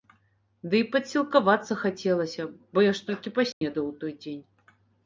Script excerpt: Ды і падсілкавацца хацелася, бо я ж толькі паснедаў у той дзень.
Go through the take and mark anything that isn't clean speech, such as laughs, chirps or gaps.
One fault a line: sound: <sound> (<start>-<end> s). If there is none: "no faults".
sound: dropout (3.5-3.6 s)